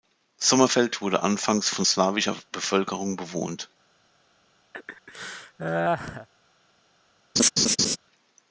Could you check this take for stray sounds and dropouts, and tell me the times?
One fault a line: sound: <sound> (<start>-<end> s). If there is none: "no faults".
sound: laugh (4.7-6.3 s)
sound: laugh (7.4-8.0 s)